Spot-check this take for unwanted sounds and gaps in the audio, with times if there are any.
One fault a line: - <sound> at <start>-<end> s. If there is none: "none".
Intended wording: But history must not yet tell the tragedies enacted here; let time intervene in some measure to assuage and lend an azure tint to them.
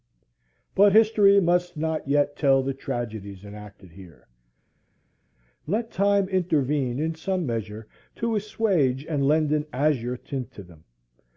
none